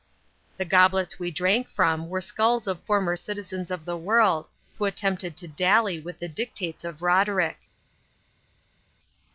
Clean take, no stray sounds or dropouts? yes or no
yes